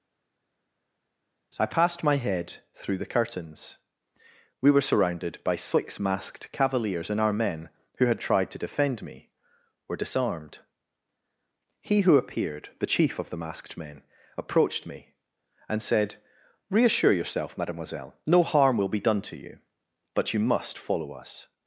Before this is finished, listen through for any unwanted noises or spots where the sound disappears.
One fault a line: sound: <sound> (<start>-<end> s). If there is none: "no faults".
no faults